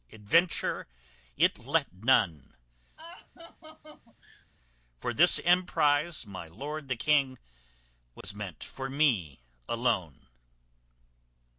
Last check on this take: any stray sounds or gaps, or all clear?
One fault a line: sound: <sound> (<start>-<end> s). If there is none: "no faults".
sound: laugh (3.0-4.5 s)
sound: dropout (8.2-8.2 s)